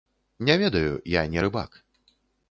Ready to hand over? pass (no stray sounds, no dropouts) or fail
pass